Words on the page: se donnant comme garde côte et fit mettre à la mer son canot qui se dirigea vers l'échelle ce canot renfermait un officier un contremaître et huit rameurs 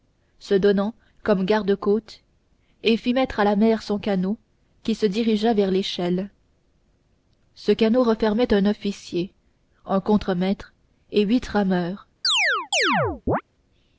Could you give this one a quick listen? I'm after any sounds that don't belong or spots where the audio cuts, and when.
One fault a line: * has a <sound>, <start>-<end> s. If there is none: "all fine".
* has a chirp, 12.2-13.4 s